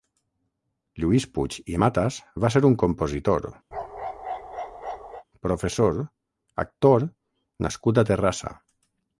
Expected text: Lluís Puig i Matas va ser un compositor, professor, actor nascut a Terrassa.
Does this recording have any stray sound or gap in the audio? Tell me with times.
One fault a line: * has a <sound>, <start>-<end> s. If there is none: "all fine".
* has a bark, 3.7-5.2 s